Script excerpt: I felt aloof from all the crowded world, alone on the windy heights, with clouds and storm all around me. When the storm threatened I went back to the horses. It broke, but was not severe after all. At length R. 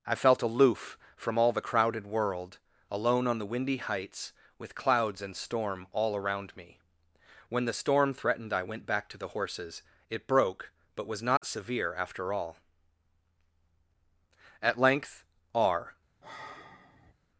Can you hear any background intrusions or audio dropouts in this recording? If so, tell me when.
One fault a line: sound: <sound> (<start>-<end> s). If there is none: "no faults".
sound: dropout (11.4-11.4 s)
sound: sigh (16.2-17.1 s)